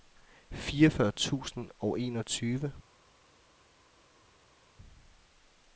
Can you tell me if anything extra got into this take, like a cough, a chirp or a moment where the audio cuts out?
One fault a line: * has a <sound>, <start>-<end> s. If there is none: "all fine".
all fine